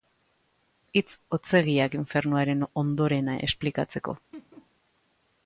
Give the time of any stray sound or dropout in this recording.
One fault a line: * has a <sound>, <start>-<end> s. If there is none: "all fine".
* has a laugh, 4.3-4.7 s